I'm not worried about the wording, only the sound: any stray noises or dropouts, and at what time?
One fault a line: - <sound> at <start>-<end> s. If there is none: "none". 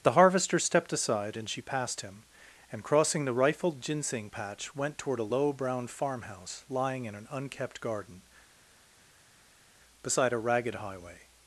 none